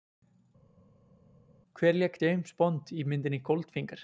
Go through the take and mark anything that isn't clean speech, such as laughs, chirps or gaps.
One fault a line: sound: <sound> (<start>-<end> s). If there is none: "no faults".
no faults